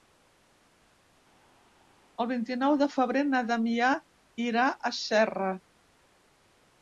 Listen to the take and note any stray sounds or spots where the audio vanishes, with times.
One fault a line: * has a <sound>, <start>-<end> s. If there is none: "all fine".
all fine